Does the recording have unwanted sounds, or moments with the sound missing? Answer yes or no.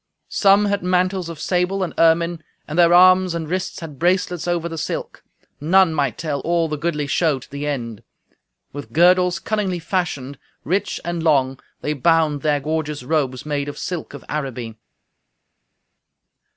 no